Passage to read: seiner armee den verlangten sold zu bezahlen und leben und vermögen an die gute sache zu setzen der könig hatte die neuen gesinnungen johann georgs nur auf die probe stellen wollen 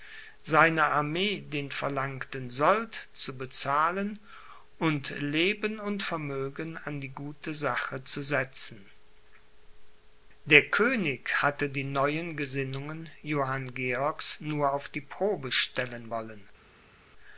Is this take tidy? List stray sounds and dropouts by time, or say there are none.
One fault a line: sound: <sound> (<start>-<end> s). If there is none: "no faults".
no faults